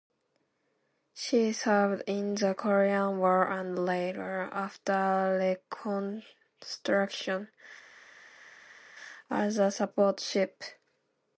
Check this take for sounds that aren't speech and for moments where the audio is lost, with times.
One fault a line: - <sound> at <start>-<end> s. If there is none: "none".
none